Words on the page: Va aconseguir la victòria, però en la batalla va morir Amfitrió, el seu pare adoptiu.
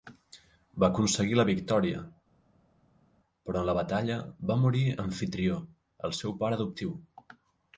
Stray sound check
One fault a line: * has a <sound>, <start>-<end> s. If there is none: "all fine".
all fine